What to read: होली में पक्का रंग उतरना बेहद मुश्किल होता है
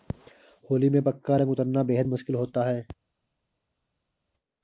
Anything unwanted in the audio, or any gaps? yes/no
no